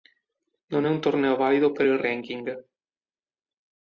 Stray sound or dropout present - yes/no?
no